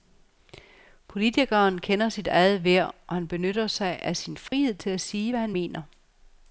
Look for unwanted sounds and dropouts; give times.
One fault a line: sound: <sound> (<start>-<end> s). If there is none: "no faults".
sound: dropout (4.5-4.5 s)